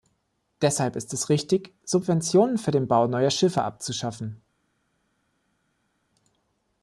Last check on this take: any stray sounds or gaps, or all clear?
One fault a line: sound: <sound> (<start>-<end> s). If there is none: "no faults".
no faults